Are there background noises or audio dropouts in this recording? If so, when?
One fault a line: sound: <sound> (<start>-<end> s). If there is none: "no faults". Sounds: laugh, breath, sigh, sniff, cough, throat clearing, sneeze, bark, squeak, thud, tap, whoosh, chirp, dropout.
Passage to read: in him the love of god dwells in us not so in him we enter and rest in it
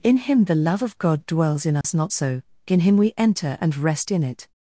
sound: dropout (1.8-1.8 s)